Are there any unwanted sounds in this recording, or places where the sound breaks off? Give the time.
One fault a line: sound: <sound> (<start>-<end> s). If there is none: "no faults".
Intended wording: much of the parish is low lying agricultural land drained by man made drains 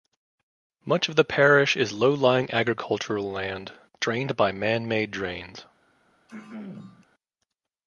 sound: throat clearing (6.3-7.0 s)